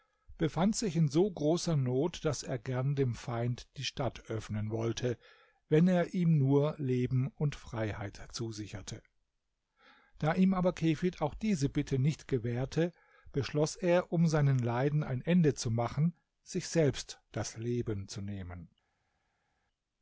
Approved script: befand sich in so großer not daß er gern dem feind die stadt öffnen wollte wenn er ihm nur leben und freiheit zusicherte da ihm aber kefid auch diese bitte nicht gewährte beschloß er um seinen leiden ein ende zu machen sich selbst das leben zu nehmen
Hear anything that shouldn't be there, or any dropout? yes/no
no